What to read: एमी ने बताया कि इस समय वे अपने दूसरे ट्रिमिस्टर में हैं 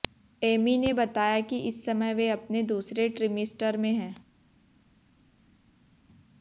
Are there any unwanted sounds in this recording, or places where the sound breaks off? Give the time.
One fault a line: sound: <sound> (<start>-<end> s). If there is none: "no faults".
no faults